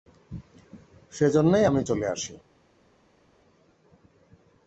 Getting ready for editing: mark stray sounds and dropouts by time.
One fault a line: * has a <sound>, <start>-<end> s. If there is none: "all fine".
all fine